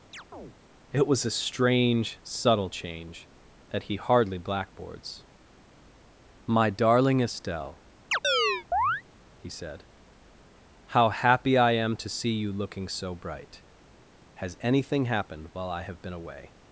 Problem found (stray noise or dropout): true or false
true